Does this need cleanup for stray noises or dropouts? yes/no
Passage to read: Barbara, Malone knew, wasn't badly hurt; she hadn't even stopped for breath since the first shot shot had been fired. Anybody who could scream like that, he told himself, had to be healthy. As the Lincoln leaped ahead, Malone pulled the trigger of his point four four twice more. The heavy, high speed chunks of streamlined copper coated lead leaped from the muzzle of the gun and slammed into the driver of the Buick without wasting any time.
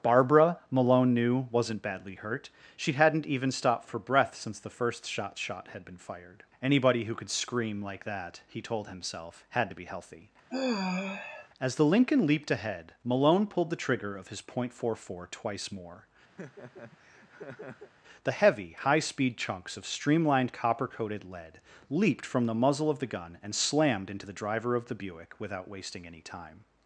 yes